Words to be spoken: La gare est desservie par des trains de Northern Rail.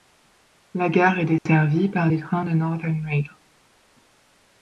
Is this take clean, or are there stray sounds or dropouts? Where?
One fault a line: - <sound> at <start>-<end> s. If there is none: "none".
- dropout at 1.4-1.5 s